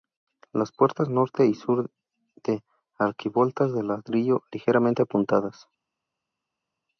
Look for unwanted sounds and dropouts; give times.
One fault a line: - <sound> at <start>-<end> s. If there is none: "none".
none